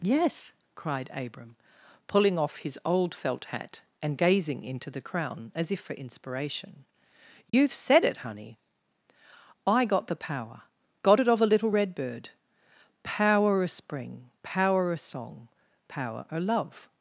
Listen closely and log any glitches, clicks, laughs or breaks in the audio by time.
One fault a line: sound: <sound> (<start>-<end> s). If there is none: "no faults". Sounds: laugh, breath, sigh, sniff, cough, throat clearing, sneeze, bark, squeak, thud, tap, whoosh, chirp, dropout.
sound: dropout (7.5-7.5 s)